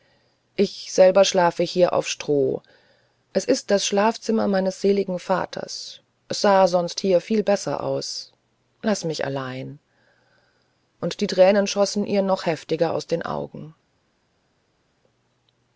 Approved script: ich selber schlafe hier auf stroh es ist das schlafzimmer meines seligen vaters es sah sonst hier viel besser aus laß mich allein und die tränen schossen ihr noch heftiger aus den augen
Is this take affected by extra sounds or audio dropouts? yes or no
no